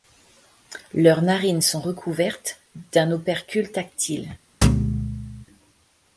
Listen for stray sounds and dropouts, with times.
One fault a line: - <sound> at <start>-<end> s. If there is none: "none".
- thud at 4.6-5.5 s